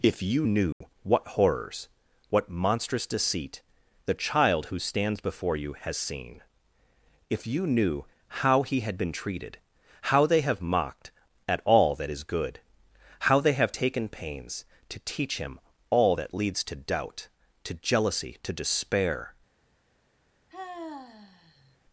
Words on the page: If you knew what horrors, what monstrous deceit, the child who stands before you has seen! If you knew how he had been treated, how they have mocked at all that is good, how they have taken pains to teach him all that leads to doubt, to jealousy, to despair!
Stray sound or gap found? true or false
true